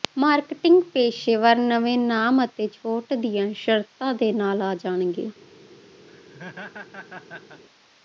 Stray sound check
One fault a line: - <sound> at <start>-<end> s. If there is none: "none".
- laugh at 6.1-7.6 s